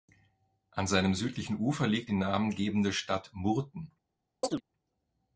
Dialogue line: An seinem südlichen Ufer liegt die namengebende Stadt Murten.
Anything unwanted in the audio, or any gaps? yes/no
yes